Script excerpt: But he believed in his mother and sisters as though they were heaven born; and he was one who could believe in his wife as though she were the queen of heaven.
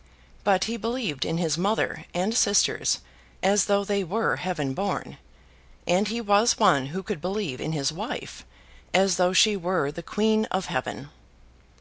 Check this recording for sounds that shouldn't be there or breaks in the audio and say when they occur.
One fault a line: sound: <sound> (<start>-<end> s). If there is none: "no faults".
no faults